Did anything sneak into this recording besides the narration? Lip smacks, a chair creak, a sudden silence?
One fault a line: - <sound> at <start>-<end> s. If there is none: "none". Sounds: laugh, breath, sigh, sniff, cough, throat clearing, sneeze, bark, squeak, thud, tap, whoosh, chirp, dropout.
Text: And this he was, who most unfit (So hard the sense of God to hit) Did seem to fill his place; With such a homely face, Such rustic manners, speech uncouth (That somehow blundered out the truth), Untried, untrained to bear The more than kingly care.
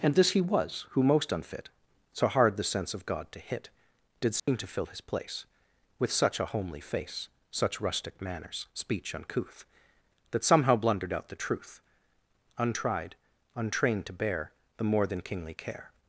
- dropout at 4.4-4.5 s